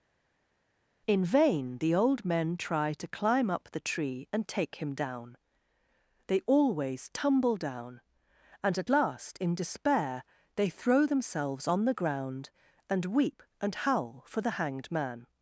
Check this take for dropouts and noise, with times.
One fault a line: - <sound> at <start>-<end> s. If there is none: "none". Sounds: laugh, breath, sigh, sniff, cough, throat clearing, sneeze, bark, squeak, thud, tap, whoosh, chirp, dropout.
none